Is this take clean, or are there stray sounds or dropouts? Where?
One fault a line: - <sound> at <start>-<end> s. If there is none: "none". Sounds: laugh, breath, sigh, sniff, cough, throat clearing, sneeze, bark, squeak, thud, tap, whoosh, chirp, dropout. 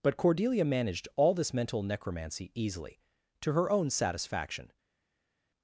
none